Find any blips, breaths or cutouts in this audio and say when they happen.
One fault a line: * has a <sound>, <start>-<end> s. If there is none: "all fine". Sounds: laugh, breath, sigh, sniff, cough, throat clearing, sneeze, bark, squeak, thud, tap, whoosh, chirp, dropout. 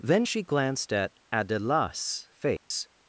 * has a dropout, 2.6-2.7 s